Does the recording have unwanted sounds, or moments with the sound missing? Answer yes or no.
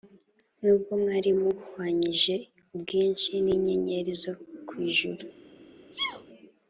yes